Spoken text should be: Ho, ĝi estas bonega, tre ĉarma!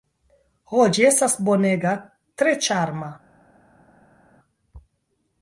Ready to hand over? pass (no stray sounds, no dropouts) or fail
pass